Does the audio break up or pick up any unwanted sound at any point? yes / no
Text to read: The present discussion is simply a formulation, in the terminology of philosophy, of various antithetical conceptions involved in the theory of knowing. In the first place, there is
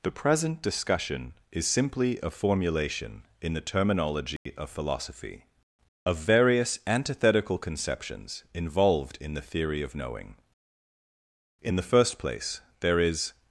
yes